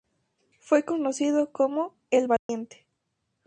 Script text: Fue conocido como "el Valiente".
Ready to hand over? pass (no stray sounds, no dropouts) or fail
fail